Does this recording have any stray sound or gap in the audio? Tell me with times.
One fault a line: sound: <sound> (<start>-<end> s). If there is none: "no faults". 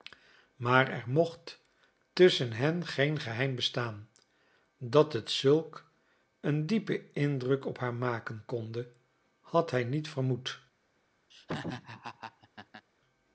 sound: laugh (11.3-12.9 s)